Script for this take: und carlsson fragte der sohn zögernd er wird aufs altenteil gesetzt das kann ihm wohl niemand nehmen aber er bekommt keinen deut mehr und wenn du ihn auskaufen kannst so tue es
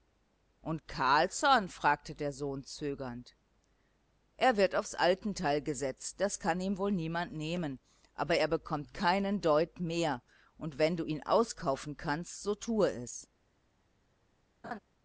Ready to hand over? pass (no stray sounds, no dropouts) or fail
fail